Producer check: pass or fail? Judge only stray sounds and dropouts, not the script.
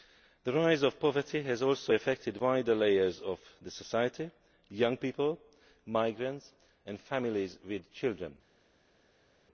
pass